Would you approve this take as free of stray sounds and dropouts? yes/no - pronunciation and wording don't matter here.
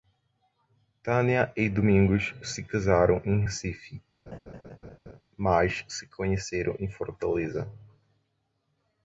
no